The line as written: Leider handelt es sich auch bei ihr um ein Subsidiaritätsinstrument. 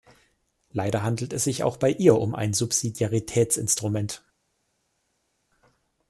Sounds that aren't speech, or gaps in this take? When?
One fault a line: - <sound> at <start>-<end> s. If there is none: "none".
none